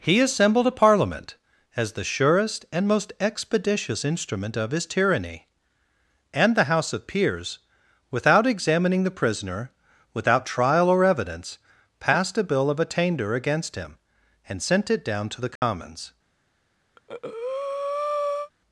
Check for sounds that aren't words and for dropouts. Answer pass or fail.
fail